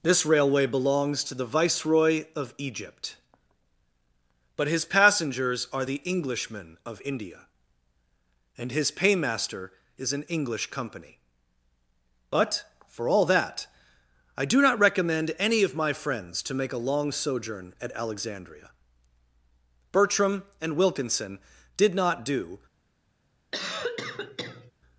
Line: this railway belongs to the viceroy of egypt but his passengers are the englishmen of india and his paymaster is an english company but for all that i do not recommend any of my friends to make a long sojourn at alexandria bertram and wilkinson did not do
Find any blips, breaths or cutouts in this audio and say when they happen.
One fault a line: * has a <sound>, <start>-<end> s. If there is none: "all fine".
* has a cough, 23.5-24.7 s